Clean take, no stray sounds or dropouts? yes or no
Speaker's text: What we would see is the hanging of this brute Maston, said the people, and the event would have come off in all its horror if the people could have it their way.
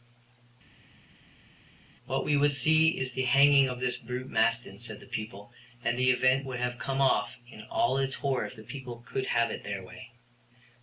yes